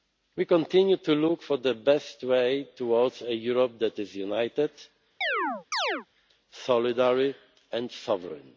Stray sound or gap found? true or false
true